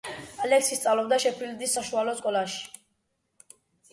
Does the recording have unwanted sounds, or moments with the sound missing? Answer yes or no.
no